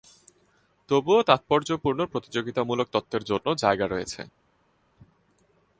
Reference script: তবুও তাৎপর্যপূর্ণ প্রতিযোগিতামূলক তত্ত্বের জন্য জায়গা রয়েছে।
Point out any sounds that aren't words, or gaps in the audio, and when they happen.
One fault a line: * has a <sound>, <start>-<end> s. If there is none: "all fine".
all fine